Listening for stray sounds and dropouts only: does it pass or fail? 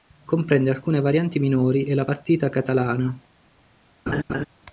fail